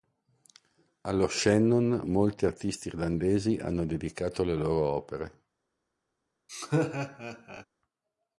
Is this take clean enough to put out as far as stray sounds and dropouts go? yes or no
no